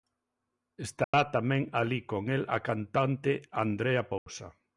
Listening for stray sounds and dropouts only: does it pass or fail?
fail